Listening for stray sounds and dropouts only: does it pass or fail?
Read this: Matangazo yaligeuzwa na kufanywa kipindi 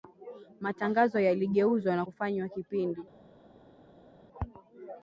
pass